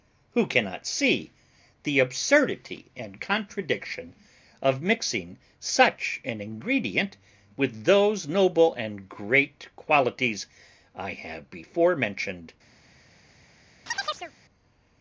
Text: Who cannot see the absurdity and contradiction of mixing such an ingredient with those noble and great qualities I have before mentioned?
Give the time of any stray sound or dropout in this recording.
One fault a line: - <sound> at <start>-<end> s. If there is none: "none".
- chirp at 13.9-14.3 s